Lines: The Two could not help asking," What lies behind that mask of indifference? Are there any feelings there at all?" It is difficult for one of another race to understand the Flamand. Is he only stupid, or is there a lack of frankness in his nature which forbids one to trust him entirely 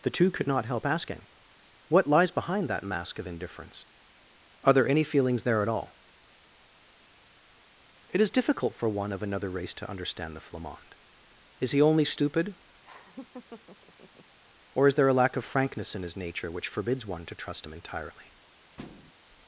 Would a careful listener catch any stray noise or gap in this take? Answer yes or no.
yes